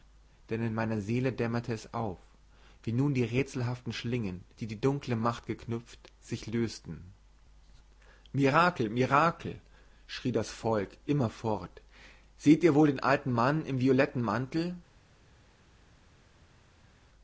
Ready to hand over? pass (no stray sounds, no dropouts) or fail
pass